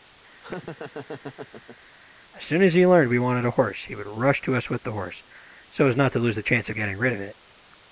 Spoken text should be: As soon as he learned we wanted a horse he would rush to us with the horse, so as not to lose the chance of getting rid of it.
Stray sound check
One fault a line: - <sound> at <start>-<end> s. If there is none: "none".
- laugh at 0.4-1.8 s